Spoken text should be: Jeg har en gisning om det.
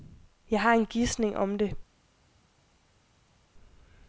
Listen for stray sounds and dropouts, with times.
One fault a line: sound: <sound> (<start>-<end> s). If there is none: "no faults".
no faults